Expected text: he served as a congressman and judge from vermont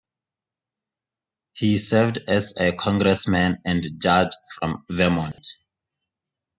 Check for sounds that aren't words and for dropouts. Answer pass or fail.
fail